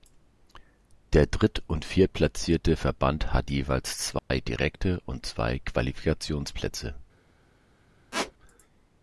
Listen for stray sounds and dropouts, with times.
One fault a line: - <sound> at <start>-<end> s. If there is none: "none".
- dropout at 4.2-4.3 s
- squeak at 8.1-8.3 s